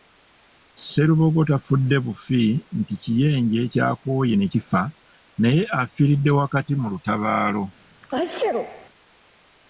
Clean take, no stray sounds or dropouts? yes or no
no